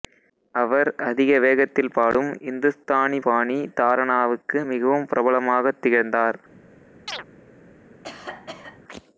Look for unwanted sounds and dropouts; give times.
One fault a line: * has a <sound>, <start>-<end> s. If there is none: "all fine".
* has a chirp, 7.1-7.2 s
* has a cough, 8.0-8.8 s